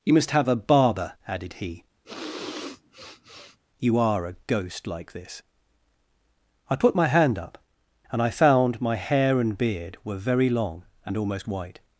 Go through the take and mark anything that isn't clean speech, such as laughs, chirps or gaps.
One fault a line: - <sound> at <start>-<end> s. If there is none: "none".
- sniff at 2.0-3.6 s